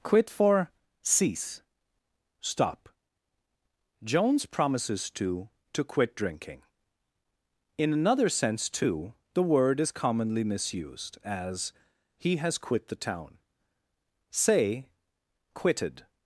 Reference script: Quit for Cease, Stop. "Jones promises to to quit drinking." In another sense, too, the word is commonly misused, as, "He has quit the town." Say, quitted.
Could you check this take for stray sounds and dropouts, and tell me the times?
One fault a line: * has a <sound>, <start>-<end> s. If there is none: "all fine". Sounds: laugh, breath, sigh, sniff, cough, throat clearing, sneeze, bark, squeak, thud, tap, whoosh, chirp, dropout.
all fine